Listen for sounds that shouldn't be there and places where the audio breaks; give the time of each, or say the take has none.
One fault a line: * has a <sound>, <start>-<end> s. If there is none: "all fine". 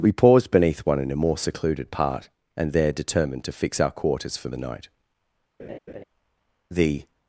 * has a laugh, 5.6-6.0 s